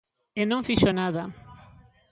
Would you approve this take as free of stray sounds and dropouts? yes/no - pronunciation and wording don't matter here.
yes